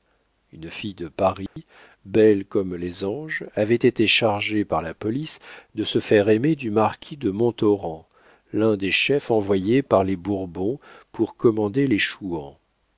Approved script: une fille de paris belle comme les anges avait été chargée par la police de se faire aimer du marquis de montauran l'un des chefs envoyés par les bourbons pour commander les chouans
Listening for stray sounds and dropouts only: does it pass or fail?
fail